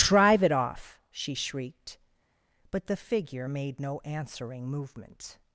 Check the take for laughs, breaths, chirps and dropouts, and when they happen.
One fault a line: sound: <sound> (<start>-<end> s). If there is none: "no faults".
no faults